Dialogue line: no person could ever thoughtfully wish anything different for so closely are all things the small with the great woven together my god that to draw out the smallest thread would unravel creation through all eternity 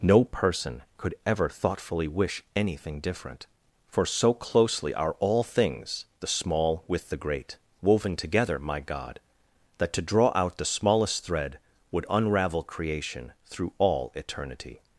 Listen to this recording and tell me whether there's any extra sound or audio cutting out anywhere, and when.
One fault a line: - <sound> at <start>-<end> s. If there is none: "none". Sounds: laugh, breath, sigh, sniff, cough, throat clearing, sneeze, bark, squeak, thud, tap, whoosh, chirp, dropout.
none